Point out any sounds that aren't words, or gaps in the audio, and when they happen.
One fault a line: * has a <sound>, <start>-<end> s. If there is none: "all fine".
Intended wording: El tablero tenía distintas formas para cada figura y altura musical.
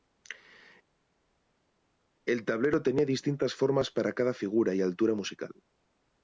all fine